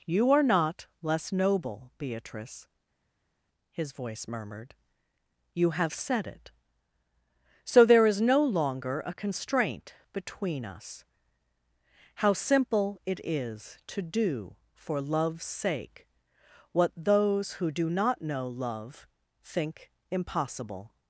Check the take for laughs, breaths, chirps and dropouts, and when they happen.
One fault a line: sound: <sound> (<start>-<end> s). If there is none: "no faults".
no faults